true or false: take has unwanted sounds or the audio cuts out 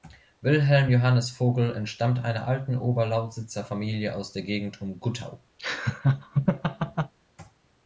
true